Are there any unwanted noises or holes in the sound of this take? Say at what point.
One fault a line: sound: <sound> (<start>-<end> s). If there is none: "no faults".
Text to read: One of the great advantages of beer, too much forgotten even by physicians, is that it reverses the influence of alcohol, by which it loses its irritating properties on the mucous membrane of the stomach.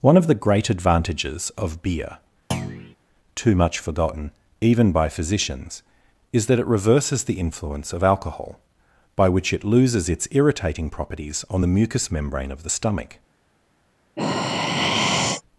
sound: thud (2.5-3.0 s)
sound: sigh (14.2-15.4 s)